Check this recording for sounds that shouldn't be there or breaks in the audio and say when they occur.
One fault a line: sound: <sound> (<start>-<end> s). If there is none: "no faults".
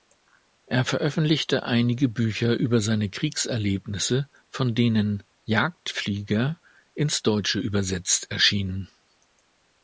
no faults